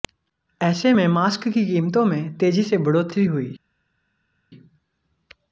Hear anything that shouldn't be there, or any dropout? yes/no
no